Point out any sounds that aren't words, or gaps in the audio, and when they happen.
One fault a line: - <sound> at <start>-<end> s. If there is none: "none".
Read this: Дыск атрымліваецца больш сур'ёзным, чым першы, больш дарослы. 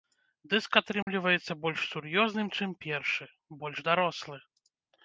- dropout at 1.0-1.1 s